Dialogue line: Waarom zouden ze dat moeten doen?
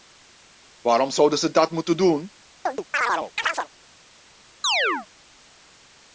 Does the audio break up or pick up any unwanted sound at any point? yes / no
yes